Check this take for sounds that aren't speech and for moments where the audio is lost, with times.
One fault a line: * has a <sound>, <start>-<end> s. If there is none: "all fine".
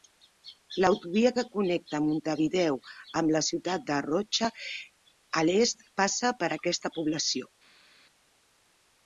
all fine